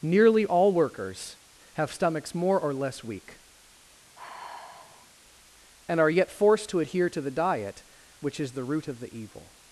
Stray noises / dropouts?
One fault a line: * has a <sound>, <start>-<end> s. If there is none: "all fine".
* has a sigh, 4.2-5.1 s